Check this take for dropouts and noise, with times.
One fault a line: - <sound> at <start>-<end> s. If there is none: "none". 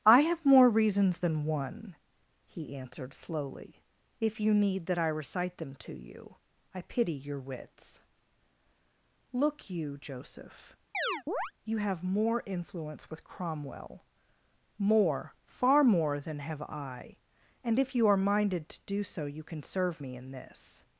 - chirp at 10.9-11.5 s